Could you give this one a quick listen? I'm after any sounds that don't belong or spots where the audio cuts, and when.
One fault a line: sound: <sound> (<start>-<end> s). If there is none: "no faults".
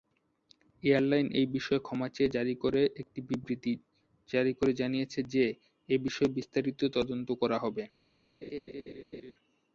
sound: laugh (8.4-9.3 s)